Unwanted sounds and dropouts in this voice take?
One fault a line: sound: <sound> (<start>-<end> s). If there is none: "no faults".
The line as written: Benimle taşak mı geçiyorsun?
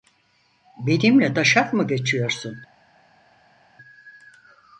no faults